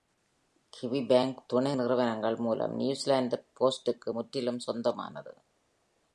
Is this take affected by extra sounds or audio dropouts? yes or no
no